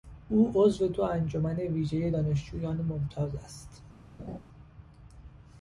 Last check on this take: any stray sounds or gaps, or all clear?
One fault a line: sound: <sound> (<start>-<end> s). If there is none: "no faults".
sound: laugh (4.2-4.4 s)